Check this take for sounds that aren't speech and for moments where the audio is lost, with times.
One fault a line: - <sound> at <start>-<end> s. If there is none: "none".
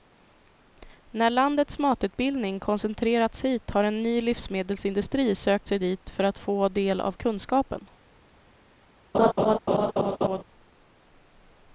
- laugh at 9.1-10.4 s